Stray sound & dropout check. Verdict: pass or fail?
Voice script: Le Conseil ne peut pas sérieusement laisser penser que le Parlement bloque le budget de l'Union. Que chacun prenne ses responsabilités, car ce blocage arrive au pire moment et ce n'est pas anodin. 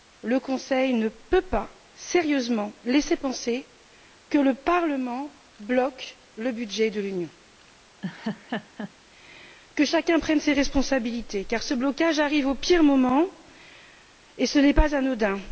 fail